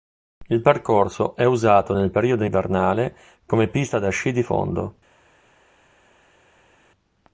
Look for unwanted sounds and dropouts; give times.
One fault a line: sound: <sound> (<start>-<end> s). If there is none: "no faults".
no faults